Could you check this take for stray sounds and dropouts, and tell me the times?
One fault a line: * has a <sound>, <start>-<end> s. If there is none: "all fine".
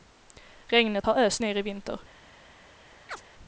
* has a chirp, 3.1-3.2 s